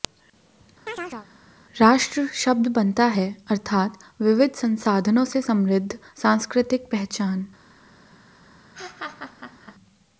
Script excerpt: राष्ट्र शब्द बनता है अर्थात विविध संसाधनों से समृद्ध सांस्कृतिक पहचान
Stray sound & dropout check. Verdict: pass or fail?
fail